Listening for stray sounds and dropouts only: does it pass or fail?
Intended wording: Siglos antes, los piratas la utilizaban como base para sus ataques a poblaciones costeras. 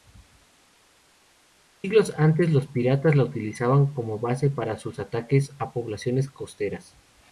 pass